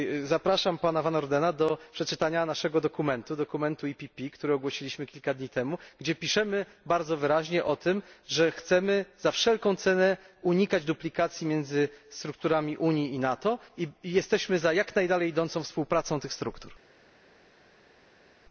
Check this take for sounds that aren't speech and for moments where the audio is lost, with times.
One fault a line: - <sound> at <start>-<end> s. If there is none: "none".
none